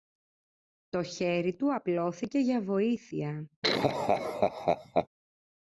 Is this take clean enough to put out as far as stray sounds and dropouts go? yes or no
no